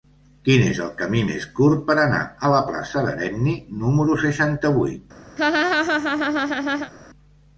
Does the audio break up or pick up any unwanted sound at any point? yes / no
yes